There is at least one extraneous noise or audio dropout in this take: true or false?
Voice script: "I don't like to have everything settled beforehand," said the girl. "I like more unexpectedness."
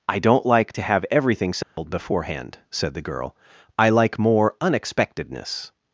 true